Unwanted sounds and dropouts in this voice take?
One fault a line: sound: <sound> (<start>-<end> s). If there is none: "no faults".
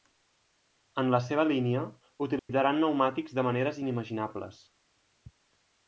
sound: dropout (2.4-2.5 s)